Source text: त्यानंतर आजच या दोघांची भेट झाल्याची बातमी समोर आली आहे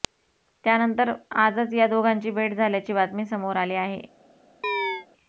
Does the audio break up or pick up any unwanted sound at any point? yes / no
yes